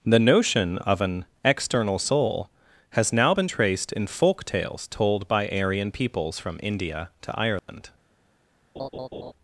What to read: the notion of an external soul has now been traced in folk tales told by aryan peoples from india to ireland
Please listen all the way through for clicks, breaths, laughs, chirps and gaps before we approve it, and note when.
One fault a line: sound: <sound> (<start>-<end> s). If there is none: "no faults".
sound: dropout (7.6-7.7 s)
sound: laugh (8.8-9.3 s)